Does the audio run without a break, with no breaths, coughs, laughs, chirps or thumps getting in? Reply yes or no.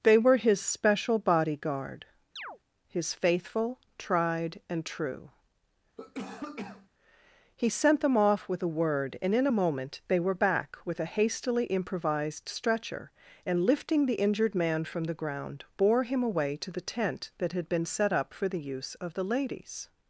no